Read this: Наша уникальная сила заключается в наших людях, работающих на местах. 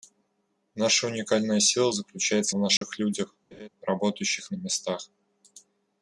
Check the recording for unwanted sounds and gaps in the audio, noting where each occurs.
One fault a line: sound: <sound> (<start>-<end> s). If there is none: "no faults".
sound: dropout (2.8-2.8 s)
sound: laugh (3.5-3.7 s)